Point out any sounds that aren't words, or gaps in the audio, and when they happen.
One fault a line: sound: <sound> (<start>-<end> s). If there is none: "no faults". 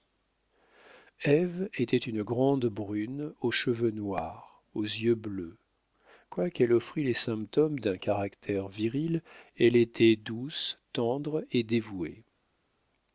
no faults